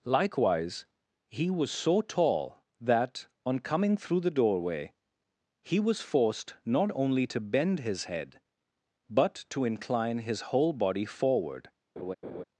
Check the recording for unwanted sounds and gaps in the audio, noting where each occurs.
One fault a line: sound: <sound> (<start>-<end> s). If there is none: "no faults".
sound: laugh (12.0-12.4 s)